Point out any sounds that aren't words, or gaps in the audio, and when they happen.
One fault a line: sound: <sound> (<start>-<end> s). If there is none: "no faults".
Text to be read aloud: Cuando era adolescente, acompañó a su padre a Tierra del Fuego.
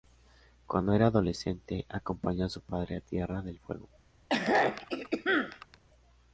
sound: throat clearing (4.3-5.8 s)